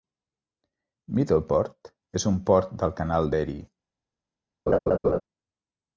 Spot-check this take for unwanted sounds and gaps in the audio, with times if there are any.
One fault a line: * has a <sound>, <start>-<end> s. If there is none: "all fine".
* has a laugh, 4.7-5.2 s